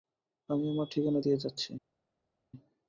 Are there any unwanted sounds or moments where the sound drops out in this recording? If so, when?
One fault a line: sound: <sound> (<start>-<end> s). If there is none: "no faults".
no faults